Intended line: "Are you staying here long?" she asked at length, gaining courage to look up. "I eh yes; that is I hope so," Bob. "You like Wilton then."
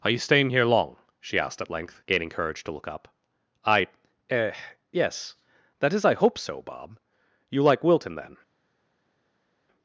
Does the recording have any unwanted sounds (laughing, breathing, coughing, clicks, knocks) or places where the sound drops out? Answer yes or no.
no